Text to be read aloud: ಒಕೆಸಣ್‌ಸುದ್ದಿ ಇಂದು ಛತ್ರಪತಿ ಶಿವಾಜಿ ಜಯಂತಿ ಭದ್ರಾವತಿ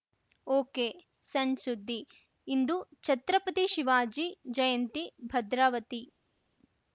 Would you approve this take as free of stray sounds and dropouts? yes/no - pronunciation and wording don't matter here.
yes